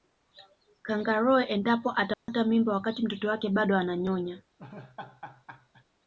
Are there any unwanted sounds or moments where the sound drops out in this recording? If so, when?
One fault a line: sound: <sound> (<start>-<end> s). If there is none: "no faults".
sound: dropout (2.1-2.3 s)
sound: laugh (4.6-5.8 s)